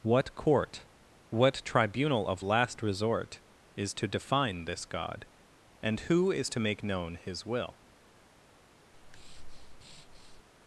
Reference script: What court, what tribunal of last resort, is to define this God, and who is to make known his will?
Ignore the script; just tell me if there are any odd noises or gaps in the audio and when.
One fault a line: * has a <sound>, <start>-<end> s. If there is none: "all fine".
* has a breath, 8.9-10.4 s